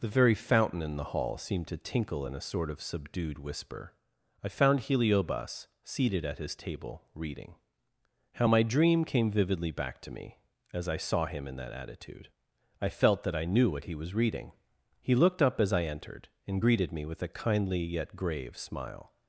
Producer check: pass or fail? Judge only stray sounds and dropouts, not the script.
pass